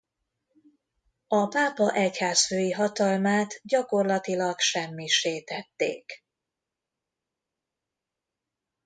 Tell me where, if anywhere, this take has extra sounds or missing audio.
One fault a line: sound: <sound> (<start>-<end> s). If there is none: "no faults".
no faults